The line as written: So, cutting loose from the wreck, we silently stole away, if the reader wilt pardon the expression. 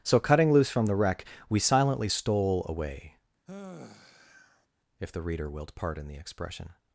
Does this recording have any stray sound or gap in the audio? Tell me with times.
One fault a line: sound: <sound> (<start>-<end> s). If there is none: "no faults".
sound: sigh (3.5-4.7 s)